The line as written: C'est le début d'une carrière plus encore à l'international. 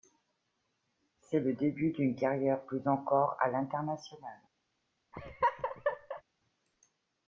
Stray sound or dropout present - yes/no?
yes